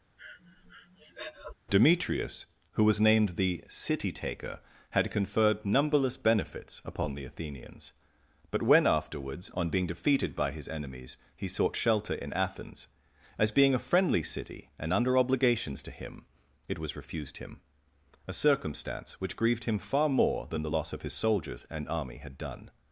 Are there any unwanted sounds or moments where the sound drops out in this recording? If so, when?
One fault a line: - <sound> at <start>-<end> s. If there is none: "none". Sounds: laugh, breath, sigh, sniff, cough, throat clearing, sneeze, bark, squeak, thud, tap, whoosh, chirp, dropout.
- breath at 0.2-1.5 s